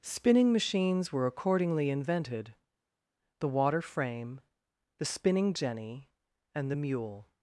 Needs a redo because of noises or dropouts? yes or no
no